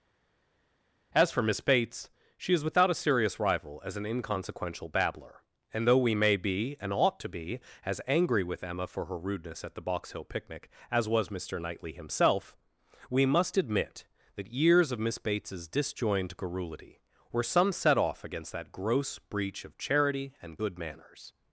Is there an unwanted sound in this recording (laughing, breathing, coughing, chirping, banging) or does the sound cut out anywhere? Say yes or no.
no